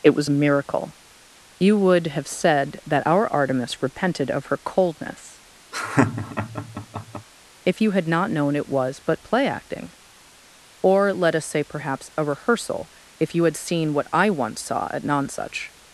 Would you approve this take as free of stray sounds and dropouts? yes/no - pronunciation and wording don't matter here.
no